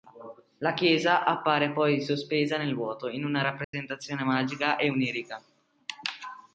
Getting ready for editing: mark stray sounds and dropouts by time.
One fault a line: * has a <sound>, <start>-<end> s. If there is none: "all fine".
* has a dropout, 3.6-3.7 s